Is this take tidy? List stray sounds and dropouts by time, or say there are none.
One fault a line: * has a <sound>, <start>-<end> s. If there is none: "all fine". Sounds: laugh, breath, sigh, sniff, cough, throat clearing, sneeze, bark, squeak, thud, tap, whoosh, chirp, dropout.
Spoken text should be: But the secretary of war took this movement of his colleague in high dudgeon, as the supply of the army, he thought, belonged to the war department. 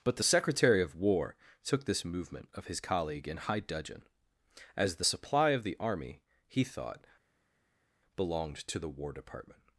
all fine